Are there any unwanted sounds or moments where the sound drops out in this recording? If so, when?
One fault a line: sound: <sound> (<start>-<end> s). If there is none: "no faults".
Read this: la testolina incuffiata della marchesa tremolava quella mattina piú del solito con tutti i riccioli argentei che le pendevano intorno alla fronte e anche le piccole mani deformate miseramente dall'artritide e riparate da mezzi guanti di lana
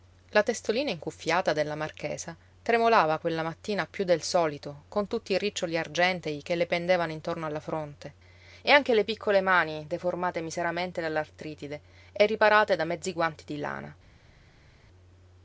no faults